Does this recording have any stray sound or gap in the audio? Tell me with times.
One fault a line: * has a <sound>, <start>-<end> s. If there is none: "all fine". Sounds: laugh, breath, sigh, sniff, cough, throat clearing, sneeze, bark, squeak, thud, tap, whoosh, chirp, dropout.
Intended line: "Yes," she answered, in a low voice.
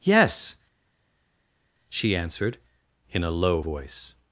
all fine